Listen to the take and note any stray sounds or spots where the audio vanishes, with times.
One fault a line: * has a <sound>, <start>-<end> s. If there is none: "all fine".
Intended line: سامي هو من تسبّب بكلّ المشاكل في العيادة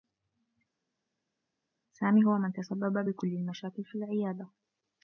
all fine